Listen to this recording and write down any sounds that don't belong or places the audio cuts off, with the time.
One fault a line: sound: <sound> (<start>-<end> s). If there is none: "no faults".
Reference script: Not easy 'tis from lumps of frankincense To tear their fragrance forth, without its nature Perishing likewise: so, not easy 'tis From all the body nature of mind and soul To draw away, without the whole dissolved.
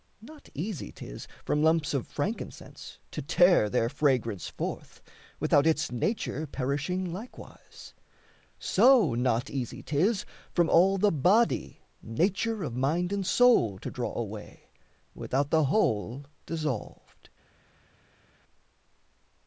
no faults